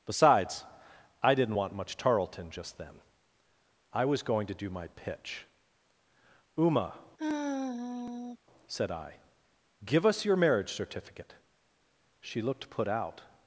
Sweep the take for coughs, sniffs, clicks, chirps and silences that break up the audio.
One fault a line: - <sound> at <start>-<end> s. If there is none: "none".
- sigh at 7.2-8.4 s